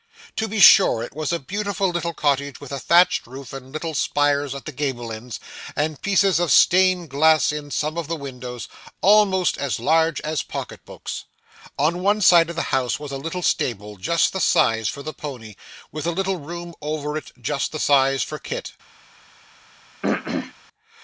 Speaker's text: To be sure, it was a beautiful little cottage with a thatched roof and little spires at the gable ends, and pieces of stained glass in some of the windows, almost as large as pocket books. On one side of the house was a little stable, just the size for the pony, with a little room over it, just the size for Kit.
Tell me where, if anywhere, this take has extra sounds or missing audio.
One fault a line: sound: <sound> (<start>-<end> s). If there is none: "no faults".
sound: throat clearing (20.0-20.5 s)